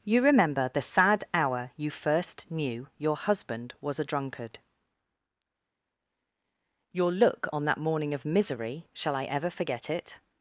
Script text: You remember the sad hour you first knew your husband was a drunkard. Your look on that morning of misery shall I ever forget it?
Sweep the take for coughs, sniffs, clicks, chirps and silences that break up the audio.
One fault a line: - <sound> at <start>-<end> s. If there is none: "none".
none